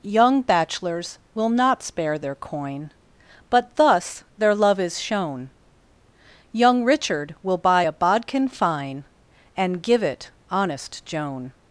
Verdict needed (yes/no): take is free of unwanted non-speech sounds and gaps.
yes